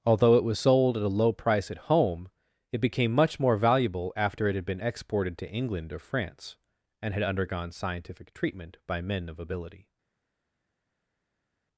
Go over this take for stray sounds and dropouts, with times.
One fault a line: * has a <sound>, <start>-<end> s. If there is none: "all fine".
all fine